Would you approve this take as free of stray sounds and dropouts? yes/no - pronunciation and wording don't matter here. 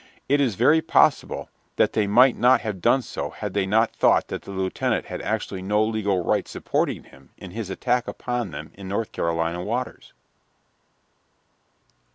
yes